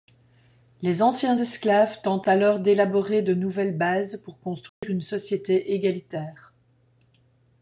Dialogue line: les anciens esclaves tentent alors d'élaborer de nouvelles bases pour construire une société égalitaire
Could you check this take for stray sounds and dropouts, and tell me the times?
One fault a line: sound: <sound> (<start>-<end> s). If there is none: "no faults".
sound: dropout (4.7-4.8 s)